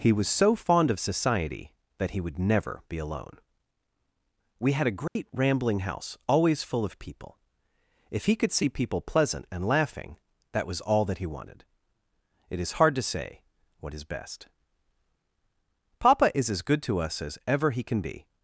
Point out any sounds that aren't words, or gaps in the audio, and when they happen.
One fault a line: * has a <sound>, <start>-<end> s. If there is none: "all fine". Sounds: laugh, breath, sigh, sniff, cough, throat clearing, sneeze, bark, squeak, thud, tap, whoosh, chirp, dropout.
* has a dropout, 5.1-5.2 s